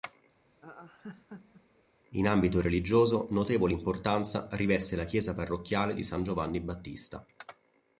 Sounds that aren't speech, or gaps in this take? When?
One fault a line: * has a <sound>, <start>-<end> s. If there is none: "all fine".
* has a laugh, 0.4-1.8 s